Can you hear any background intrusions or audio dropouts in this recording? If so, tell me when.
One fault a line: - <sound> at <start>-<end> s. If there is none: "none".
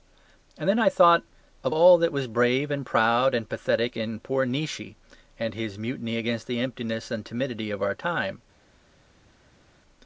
none